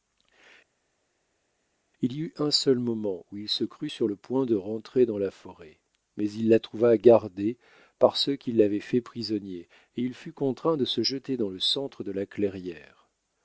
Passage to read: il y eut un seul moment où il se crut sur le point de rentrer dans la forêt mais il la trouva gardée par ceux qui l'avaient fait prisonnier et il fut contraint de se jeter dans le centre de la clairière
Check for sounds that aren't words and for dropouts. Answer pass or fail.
pass